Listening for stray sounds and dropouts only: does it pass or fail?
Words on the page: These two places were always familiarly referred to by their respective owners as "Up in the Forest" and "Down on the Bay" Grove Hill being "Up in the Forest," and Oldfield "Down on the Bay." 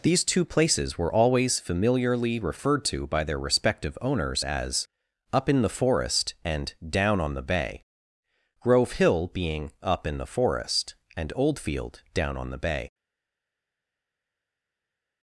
pass